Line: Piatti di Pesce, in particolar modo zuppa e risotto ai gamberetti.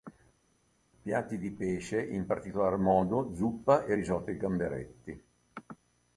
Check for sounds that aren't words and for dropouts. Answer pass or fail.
pass